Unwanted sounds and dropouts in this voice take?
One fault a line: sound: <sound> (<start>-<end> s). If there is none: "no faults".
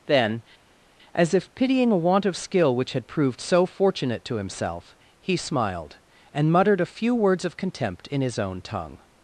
no faults